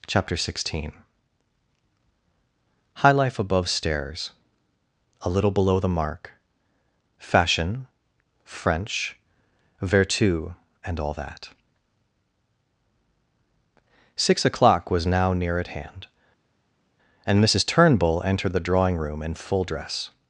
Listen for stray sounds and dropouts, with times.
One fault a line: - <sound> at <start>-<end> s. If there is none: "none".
none